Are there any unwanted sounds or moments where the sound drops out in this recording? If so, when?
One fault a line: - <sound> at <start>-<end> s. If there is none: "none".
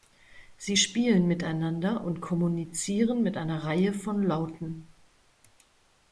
none